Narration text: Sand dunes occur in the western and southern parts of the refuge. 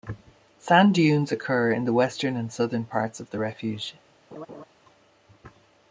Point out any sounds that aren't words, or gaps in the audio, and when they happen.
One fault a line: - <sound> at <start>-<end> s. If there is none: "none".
- laugh at 4.3-4.6 s